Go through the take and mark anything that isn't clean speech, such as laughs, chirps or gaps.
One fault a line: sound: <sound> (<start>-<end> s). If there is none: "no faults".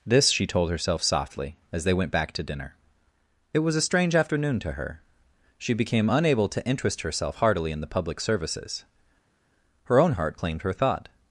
no faults